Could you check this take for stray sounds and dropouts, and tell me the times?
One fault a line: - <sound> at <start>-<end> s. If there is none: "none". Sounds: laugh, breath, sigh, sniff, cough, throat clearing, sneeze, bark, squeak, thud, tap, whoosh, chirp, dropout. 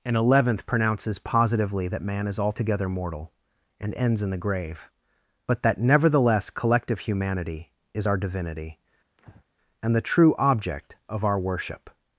- breath at 9.2-9.4 s